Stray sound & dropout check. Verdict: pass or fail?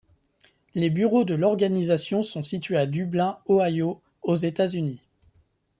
pass